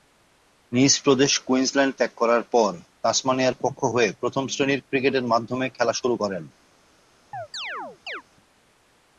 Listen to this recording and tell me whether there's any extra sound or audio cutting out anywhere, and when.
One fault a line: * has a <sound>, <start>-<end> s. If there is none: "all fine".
* has a chirp, 7.3-8.2 s